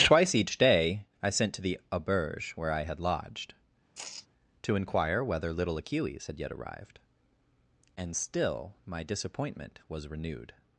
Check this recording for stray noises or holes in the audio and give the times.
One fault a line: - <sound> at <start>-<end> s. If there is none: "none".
- sigh at 3.9-4.3 s